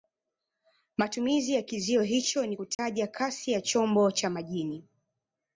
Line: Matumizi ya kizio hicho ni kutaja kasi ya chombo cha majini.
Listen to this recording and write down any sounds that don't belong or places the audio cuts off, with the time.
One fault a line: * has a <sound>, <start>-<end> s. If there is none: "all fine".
* has a dropout, 2.7-2.8 s